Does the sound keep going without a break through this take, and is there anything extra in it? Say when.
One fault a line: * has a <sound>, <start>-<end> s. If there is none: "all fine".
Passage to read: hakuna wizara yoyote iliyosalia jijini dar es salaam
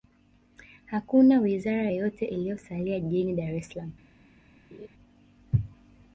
* has a laugh, 4.7-4.9 s